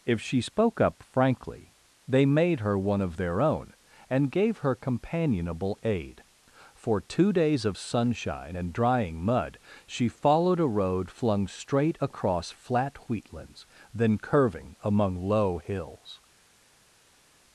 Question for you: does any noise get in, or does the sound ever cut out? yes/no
no